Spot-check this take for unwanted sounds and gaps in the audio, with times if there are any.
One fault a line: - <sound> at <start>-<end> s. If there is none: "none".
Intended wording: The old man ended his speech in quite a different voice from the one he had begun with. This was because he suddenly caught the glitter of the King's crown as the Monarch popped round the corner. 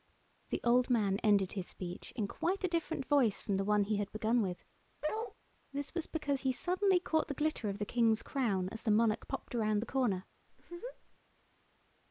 - bark at 5.0-5.3 s
- laugh at 10.5-11.2 s